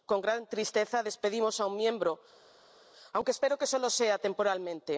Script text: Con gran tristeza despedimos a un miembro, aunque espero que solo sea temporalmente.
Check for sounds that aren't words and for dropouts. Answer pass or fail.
pass